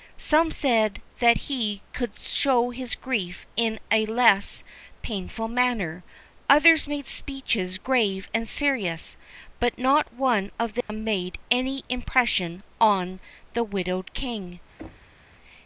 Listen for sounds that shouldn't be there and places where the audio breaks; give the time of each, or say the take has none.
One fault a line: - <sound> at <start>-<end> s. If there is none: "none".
- dropout at 10.8-10.9 s
- thud at 14.8-15.2 s